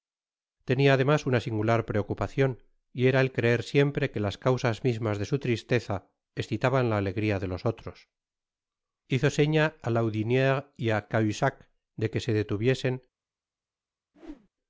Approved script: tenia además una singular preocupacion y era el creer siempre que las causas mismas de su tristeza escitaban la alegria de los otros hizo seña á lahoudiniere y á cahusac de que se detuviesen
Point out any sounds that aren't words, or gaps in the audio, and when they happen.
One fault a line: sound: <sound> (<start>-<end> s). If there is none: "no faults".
sound: whoosh (14.1-14.5 s)